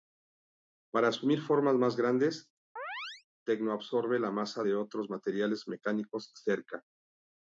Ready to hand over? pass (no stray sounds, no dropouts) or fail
fail